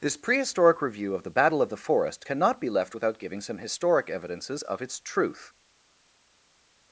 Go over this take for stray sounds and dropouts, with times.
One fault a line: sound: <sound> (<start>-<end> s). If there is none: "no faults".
no faults